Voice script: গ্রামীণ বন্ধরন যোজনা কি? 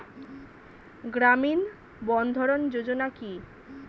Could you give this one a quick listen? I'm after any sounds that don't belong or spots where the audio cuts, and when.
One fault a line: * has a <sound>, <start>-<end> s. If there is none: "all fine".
all fine